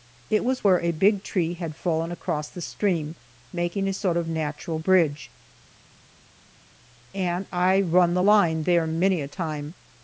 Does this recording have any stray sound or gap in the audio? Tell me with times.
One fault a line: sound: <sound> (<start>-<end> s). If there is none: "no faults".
no faults